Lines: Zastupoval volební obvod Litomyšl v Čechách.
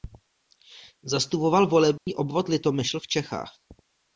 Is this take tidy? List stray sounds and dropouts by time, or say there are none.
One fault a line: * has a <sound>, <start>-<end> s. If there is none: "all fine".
* has a dropout, 2.0-2.1 s